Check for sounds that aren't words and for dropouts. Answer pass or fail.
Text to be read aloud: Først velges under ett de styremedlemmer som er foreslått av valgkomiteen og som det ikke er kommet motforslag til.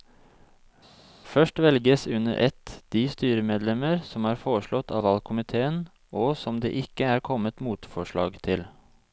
pass